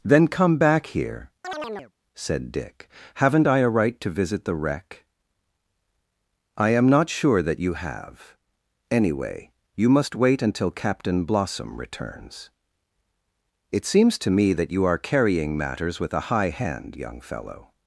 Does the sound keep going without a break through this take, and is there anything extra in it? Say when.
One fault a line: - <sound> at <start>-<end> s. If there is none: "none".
- chirp at 1.4-1.9 s